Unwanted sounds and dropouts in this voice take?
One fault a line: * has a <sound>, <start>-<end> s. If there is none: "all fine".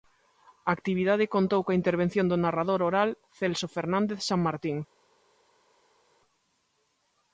all fine